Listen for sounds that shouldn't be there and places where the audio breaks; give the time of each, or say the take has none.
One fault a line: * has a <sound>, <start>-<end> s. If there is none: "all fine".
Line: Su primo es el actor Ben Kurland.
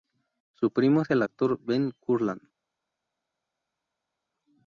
all fine